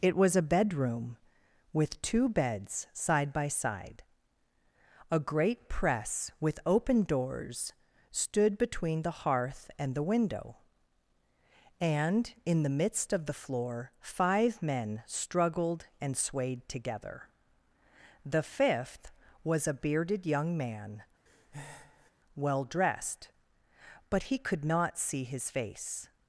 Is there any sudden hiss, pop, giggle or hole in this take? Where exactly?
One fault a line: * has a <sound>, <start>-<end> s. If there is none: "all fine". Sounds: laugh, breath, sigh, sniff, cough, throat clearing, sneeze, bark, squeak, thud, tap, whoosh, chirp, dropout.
* has a breath, 21.3-22.1 s